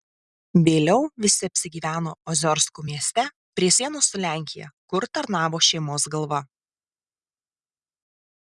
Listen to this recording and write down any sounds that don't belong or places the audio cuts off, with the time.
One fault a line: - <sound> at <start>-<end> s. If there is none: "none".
none